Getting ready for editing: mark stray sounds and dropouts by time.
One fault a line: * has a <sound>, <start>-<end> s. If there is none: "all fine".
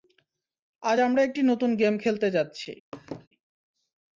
* has a laugh, 2.9-3.3 s